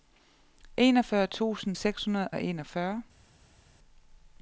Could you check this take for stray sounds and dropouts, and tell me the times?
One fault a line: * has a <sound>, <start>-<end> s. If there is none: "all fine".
all fine